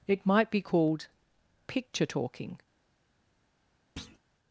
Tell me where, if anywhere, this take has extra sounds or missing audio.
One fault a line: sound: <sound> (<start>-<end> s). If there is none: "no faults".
sound: thud (4.0-4.2 s)